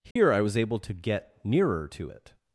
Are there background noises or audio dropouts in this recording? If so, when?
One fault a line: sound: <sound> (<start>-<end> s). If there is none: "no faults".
sound: dropout (0.1-0.2 s)